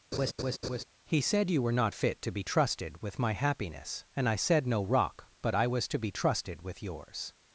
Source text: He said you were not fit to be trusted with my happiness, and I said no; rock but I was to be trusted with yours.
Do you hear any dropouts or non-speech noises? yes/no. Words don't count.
yes